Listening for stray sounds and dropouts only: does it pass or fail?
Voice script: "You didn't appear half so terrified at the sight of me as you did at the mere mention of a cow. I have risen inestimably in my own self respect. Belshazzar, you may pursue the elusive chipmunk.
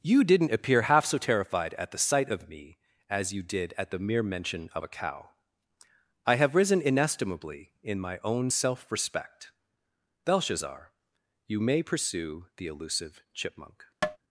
fail